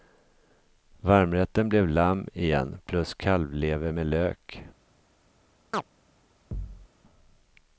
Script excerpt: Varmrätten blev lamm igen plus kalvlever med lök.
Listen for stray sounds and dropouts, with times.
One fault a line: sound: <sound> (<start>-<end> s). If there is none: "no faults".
sound: chirp (5.7-5.8 s)
sound: thud (6.5-6.9 s)